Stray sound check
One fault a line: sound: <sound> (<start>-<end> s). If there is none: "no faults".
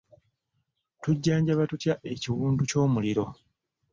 no faults